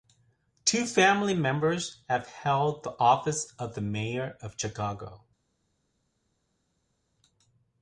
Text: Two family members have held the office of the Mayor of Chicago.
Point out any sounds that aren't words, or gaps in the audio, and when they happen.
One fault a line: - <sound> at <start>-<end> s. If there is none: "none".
none